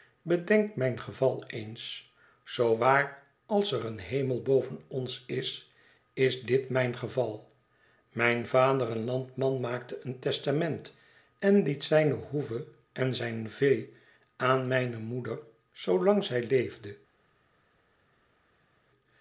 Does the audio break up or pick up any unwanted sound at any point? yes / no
no